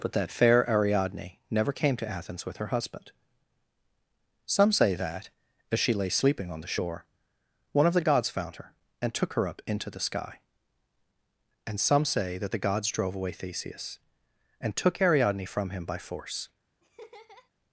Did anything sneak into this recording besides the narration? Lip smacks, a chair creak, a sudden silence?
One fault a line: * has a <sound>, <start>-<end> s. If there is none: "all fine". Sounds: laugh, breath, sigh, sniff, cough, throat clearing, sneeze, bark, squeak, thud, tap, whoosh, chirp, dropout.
* has a laugh, 16.8-17.5 s